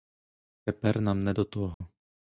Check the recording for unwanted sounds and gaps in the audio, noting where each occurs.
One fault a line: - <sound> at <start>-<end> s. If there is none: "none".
- dropout at 1.7-1.8 s